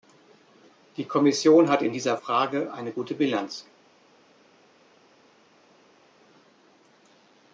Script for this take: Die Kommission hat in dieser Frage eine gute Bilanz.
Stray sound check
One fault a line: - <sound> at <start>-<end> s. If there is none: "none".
none